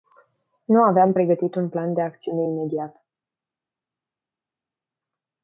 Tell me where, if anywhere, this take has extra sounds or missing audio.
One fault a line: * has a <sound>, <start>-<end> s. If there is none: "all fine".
all fine